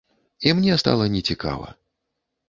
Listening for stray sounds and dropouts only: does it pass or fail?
pass